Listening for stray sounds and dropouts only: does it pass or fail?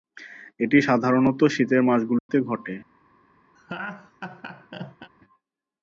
fail